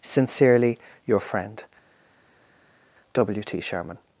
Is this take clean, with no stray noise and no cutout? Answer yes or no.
yes